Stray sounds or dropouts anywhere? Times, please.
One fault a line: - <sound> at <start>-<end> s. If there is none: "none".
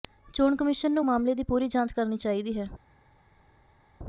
none